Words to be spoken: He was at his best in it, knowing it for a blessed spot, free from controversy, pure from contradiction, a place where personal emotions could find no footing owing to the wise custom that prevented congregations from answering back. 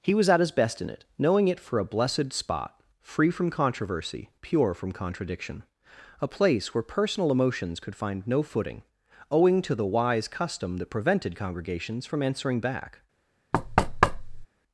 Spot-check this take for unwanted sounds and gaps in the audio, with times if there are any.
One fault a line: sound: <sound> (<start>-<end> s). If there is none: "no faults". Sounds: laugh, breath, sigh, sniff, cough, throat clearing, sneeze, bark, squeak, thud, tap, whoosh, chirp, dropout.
sound: thud (13.5-14.5 s)